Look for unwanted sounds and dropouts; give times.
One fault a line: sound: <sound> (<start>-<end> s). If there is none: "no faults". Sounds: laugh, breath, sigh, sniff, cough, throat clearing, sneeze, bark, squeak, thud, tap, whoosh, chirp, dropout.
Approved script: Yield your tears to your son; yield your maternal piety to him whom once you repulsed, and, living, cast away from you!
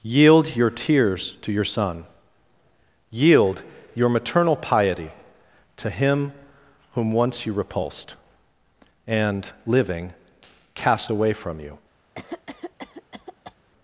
sound: cough (12.2-13.6 s)